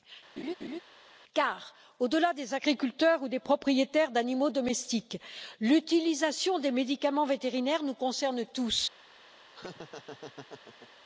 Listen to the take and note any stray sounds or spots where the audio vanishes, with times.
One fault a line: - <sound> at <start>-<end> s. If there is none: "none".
- laugh at 0.4-0.8 s
- laugh at 9.5-10.9 s